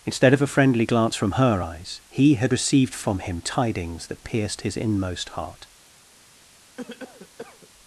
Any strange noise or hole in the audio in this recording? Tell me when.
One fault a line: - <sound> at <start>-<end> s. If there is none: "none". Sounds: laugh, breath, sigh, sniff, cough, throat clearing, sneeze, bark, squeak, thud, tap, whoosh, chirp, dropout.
- cough at 6.8-7.7 s